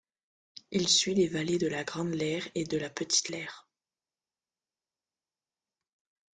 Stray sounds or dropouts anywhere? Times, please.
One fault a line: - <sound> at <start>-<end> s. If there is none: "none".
none